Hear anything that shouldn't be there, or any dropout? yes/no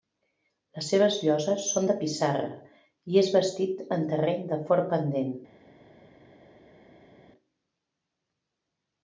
no